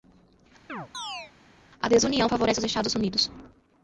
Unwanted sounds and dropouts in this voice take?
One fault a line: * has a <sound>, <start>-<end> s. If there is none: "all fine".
* has a chirp, 0.7-1.3 s